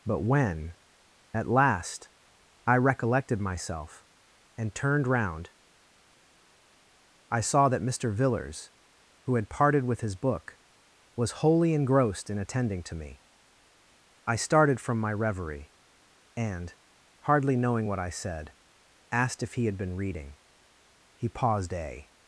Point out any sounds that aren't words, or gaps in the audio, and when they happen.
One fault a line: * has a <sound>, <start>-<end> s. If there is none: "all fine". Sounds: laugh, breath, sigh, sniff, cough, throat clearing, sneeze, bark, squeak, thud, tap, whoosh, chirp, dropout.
all fine